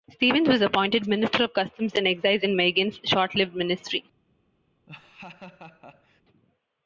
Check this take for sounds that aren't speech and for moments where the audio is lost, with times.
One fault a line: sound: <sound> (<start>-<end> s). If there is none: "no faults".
sound: laugh (4.9-6.2 s)